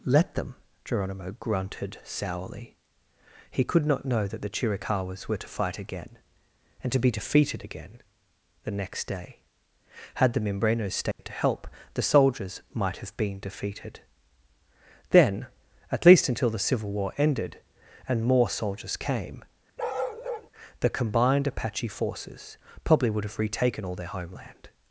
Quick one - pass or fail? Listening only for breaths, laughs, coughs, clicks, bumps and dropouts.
fail